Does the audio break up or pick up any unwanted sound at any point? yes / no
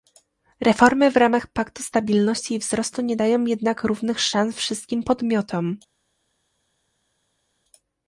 no